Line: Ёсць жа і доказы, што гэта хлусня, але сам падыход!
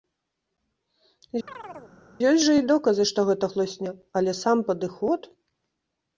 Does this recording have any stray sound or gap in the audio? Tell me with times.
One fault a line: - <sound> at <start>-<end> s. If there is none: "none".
- chirp at 1.5-1.9 s